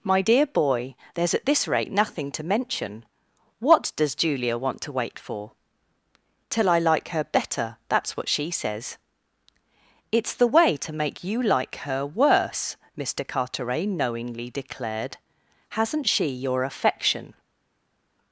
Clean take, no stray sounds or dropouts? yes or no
yes